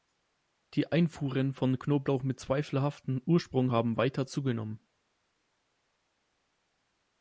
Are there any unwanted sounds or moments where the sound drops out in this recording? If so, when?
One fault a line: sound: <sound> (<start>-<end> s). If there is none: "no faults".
no faults